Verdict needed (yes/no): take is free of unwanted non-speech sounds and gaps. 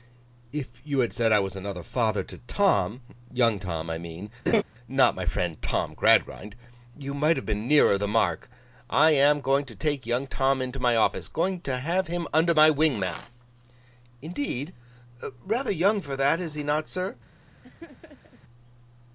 no